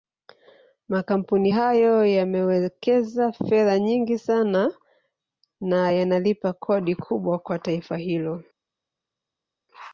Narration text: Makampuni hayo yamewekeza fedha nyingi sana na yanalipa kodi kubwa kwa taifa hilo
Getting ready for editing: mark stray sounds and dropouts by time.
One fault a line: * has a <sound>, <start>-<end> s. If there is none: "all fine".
all fine